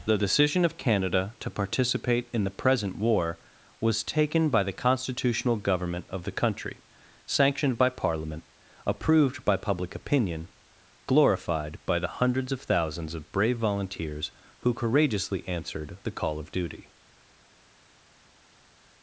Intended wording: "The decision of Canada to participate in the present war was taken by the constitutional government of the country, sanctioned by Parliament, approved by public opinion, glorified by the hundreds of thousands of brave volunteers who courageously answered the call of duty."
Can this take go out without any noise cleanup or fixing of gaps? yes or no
yes